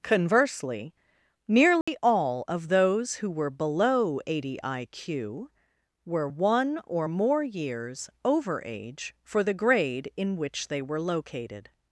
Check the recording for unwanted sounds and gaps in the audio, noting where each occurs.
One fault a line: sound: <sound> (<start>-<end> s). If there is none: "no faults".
sound: dropout (1.8-1.9 s)